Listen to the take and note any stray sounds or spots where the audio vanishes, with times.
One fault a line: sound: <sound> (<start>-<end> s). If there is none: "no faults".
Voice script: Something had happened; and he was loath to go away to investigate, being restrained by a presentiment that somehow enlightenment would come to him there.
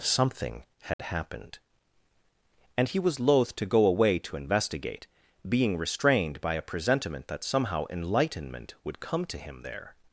sound: dropout (0.9-1.0 s)